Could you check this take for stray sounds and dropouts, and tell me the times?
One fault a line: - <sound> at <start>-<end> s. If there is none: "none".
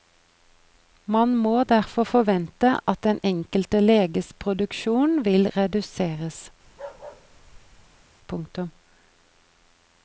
- bark at 6.6-8.0 s